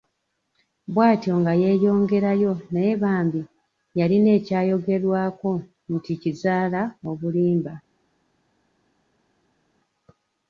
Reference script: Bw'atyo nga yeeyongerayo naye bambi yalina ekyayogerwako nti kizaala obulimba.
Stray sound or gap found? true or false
false